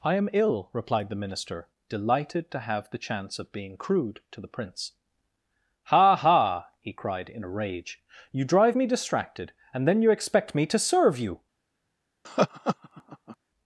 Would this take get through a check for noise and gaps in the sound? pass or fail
fail